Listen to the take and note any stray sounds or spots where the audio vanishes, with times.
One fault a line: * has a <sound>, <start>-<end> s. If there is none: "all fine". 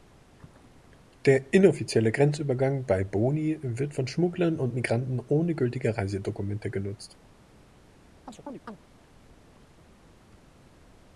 * has a chirp, 8.3-8.8 s